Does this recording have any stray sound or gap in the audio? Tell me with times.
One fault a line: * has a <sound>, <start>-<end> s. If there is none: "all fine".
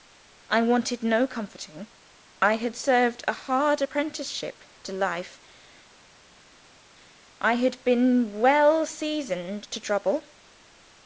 all fine